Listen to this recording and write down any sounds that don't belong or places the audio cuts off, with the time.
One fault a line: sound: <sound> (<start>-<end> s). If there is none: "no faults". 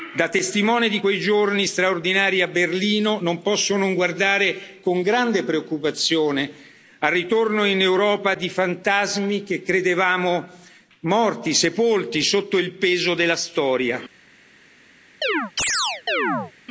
sound: chirp (15.2-16.5 s)